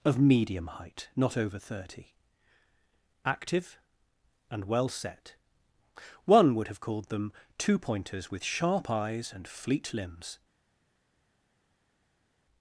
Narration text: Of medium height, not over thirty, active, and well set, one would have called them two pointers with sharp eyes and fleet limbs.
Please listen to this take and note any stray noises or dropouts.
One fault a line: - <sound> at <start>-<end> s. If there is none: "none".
none